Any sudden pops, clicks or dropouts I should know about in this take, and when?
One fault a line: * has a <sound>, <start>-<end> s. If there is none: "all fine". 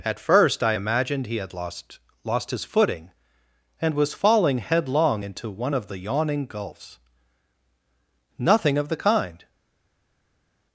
all fine